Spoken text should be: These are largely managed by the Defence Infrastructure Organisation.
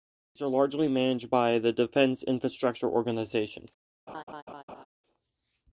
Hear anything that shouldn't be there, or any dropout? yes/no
yes